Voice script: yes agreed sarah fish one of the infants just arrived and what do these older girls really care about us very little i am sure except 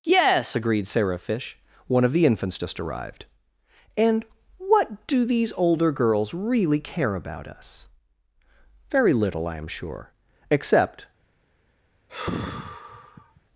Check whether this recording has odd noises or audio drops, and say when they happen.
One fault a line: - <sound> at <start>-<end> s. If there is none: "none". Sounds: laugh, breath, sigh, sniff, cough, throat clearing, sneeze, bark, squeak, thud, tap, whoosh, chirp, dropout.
- sigh at 12.1-13.4 s